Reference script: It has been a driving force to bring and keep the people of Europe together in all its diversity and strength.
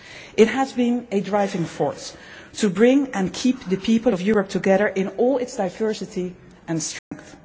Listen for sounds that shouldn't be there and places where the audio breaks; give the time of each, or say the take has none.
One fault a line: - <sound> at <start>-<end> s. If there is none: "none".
- dropout at 7.0-7.1 s